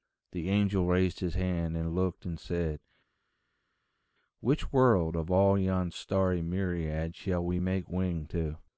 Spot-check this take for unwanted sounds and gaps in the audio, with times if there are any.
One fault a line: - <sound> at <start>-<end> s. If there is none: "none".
none